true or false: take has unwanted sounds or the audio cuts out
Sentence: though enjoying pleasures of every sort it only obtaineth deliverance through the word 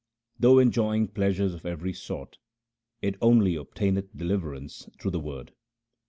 false